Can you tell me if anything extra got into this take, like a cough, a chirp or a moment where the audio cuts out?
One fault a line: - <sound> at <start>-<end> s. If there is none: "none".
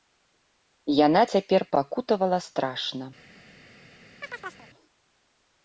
- chirp at 4.2-4.7 s